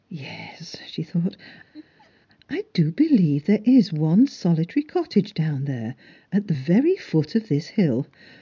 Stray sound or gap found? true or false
true